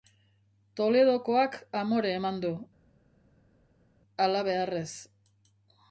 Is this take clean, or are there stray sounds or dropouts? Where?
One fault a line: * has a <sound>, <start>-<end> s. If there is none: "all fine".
all fine